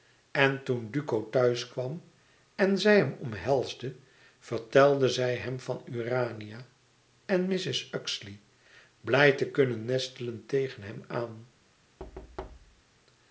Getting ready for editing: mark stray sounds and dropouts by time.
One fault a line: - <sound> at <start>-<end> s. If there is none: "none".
- thud at 12.0-12.8 s